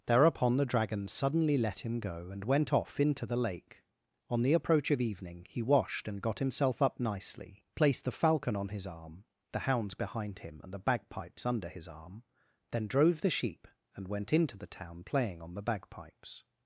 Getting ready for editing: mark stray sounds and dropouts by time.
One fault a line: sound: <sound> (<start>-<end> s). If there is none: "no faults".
no faults